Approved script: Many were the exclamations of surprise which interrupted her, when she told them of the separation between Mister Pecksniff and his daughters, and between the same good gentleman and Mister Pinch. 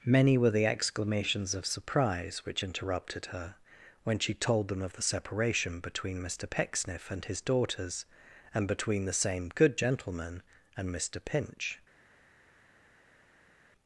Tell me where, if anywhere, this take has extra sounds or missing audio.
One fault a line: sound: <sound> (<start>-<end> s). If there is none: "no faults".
no faults